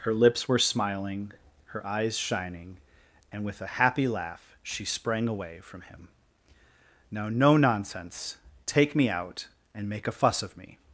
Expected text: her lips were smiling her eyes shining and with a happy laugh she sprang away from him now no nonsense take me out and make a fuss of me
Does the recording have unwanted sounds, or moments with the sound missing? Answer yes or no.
no